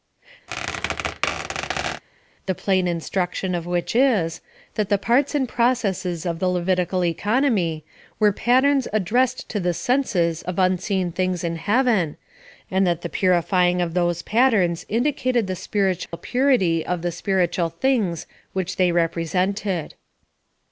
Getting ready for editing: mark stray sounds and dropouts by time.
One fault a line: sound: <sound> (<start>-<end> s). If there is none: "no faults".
sound: squeak (0.5-2.0 s)
sound: dropout (16.1-16.1 s)